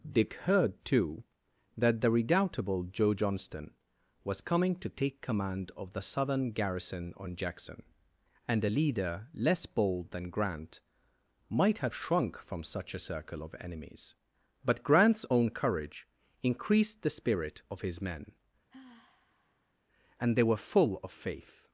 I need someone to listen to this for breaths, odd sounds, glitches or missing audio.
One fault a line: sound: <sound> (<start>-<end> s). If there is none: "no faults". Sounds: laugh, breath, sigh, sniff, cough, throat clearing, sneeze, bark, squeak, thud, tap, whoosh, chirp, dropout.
sound: sigh (18.7-19.7 s)